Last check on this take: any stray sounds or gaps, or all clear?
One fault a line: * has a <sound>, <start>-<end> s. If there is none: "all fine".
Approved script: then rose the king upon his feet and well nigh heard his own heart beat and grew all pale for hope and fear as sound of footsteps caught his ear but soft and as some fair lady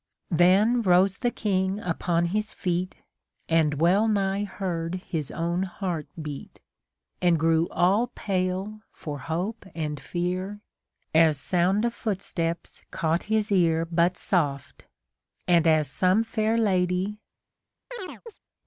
* has a chirp, 17.9-18.4 s